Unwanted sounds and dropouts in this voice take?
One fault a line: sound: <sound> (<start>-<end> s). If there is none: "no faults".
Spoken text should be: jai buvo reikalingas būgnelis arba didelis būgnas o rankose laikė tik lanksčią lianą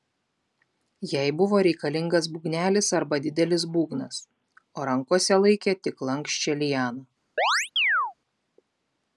sound: chirp (7.4-8.1 s)